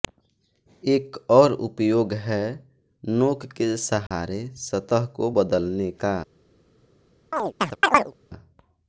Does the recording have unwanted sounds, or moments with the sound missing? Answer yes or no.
yes